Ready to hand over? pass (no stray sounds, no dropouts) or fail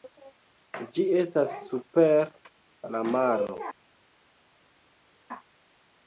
pass